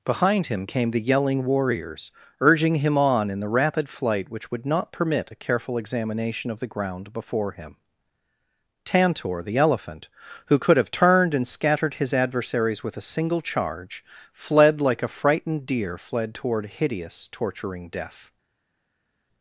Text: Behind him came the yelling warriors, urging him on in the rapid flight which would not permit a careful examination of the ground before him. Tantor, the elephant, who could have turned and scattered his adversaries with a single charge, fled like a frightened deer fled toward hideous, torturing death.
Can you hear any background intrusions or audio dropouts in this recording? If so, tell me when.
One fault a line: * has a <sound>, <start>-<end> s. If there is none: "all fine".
all fine